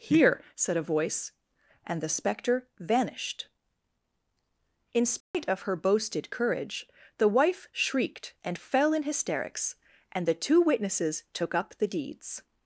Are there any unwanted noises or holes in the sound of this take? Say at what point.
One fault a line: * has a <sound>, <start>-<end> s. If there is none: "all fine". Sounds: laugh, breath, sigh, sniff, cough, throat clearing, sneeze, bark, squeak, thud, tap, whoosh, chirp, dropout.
* has a dropout, 5.2-5.3 s